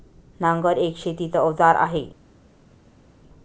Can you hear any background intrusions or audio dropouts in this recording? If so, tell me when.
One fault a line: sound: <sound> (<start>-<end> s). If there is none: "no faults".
no faults